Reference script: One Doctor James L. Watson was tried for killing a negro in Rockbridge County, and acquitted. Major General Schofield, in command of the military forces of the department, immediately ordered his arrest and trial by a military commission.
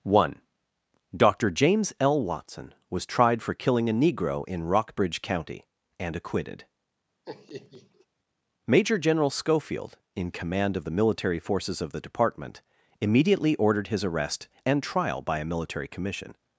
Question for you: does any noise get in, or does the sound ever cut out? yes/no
yes